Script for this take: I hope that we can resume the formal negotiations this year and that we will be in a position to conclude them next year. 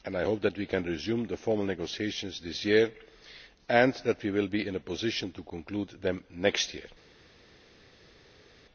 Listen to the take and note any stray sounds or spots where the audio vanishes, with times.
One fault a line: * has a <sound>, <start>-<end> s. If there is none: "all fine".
all fine